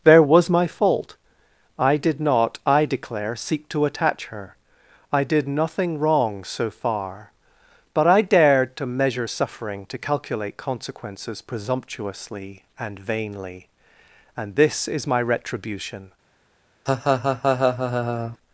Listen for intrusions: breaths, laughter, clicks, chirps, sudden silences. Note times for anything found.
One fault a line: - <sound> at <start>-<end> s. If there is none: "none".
- laugh at 16.9-18.4 s